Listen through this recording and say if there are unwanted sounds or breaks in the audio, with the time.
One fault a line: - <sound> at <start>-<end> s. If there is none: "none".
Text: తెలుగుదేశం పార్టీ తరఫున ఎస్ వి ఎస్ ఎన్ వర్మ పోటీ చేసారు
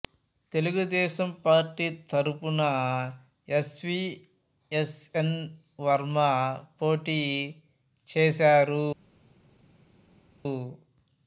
none